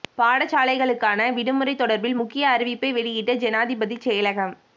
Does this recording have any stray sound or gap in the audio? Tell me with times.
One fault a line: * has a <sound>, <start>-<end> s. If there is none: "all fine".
all fine